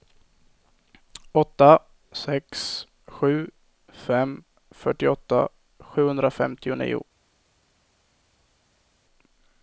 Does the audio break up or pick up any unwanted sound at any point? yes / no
no